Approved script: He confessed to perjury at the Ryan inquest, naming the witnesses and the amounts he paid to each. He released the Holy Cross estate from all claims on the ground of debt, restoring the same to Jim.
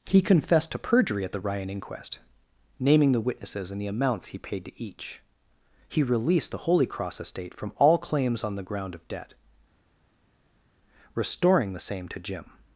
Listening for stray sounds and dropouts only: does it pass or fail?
pass